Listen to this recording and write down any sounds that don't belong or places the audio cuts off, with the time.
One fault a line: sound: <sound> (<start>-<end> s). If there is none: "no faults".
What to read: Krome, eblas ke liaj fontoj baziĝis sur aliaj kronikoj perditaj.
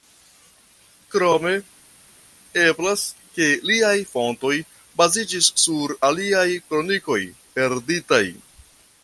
no faults